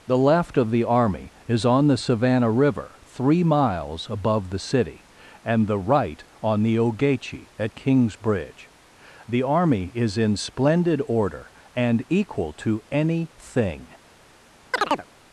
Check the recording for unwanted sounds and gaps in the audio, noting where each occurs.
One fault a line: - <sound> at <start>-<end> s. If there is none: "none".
- chirp at 14.7-15.1 s